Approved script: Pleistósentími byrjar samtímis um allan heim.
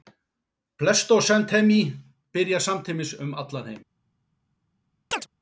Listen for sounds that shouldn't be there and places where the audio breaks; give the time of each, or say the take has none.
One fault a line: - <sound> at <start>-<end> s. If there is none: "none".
- chirp at 5.1-5.3 s